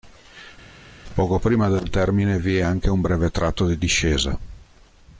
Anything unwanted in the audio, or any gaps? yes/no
no